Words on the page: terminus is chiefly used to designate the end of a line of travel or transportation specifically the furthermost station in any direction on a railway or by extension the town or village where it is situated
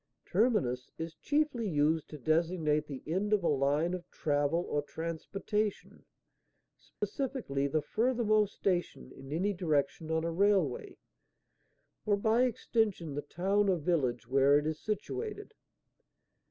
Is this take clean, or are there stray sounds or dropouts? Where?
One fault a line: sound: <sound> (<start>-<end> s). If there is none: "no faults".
sound: dropout (7.0-7.0 s)